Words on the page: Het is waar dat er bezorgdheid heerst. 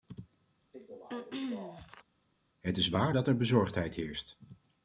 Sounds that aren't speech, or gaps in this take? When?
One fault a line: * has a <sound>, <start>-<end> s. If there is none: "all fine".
* has a throat clearing, 0.7-2.0 s